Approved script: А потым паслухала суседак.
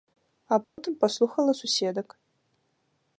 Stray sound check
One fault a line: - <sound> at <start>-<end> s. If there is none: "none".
- dropout at 0.6-0.8 s